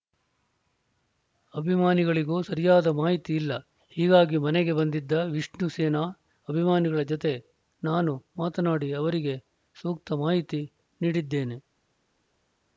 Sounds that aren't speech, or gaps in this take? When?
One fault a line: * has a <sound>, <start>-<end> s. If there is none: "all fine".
all fine